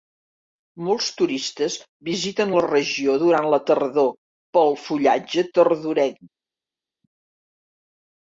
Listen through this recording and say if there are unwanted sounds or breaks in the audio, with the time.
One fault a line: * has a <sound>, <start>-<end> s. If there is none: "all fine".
all fine